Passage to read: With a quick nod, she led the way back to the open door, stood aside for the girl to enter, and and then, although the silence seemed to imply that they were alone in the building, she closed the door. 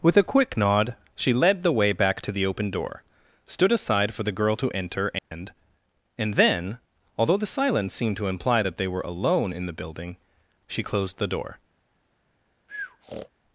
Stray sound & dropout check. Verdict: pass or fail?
fail